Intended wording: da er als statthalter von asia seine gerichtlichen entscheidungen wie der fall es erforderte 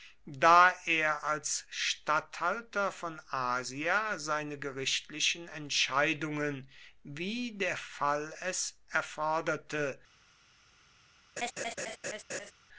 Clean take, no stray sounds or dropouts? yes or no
no